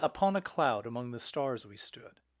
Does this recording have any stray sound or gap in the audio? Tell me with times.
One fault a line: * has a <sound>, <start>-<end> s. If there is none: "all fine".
all fine